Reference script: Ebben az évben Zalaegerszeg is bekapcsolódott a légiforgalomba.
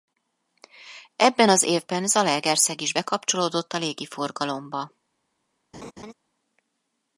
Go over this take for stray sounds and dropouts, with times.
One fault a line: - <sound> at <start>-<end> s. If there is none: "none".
- laugh at 5.7-6.1 s